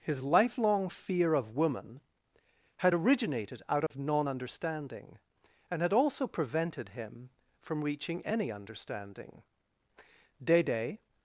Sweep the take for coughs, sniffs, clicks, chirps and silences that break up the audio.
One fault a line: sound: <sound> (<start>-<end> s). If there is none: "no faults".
sound: dropout (3.9-3.9 s)